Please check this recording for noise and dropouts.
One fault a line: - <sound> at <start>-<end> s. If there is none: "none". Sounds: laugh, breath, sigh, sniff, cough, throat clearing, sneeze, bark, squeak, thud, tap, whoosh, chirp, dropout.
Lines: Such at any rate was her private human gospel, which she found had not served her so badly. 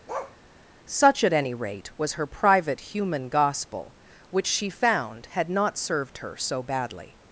- bark at 0.1-0.4 s